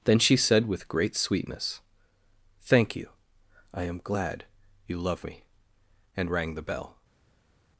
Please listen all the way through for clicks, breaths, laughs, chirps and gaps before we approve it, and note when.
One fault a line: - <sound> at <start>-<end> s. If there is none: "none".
none